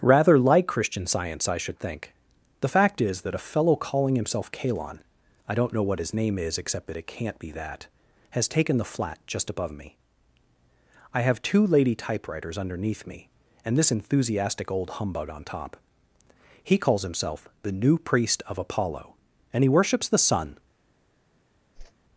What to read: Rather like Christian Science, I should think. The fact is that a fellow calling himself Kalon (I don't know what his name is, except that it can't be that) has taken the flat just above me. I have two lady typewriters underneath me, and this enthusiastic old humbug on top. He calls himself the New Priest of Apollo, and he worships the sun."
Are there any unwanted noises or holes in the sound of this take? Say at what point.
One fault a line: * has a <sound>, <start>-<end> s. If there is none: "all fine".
* has a whoosh, 21.8-21.9 s